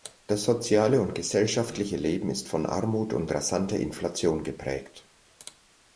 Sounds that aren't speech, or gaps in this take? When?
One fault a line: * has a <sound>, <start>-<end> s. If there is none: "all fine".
all fine